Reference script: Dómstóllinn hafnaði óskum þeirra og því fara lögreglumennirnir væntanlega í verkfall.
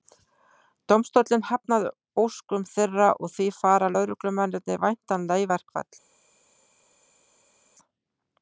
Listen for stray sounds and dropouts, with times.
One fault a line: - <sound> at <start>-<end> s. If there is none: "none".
none